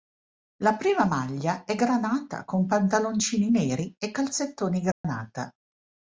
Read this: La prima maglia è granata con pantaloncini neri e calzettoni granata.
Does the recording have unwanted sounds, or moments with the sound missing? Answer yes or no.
yes